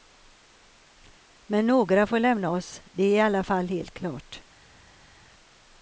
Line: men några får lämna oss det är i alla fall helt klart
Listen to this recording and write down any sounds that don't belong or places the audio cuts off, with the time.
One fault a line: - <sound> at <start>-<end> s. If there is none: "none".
none